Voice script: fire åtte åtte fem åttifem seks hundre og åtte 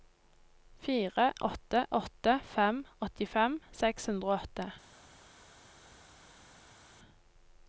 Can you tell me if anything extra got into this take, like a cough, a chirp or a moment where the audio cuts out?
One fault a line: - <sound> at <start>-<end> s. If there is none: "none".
none